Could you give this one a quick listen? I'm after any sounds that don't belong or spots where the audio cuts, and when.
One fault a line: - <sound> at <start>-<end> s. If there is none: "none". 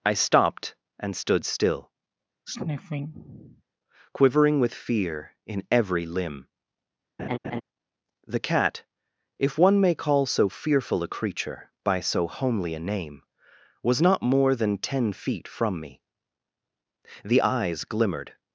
- sniff at 2.5-3.6 s
- laugh at 7.2-7.6 s